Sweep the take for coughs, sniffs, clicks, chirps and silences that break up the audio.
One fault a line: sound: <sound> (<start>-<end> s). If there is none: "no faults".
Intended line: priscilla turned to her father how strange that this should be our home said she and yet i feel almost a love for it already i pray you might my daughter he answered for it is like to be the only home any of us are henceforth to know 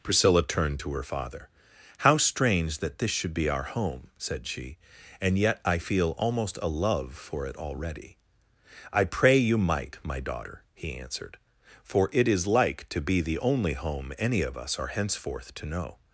no faults